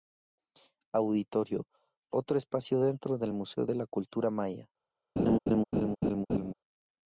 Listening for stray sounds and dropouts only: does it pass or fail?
fail